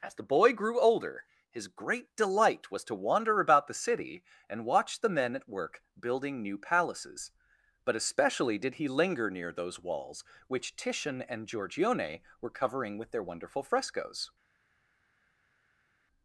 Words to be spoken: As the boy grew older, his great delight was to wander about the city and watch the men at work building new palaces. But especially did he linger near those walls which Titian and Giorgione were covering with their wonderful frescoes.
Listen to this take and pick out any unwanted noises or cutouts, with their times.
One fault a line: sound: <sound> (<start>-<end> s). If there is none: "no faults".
no faults